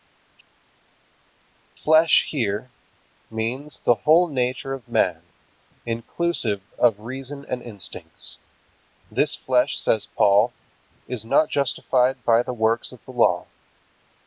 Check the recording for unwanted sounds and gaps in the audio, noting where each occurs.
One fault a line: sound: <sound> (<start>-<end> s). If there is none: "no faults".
no faults